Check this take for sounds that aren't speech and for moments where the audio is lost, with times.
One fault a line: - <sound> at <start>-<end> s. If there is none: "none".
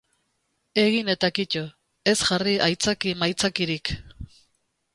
none